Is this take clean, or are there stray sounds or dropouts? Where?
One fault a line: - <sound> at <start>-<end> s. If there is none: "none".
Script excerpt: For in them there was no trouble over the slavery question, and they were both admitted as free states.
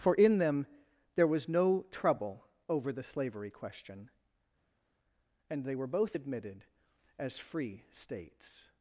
none